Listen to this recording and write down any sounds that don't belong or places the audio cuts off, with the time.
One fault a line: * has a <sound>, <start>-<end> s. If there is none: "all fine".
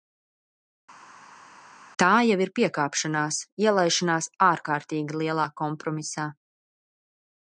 all fine